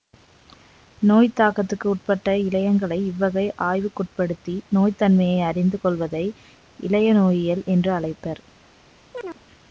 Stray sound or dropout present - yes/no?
yes